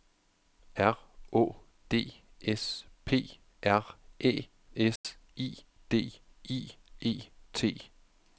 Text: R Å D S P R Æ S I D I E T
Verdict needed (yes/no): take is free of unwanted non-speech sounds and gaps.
no